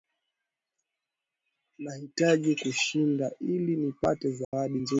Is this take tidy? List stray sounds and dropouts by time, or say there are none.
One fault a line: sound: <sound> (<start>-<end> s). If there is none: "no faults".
sound: dropout (4.4-4.5 s)